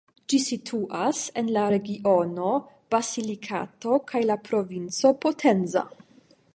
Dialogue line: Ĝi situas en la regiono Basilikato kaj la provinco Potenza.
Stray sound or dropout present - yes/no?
no